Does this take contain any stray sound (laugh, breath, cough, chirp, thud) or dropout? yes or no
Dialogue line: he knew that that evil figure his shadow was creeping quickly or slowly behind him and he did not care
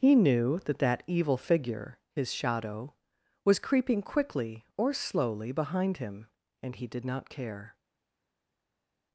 no